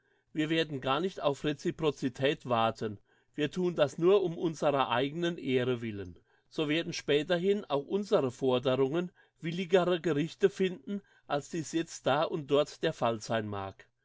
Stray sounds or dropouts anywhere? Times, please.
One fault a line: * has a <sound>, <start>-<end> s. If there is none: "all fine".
all fine